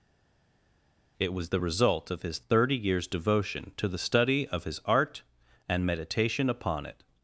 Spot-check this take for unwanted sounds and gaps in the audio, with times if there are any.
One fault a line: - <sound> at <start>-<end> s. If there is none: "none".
none